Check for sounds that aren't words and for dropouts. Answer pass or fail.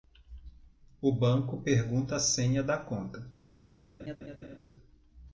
fail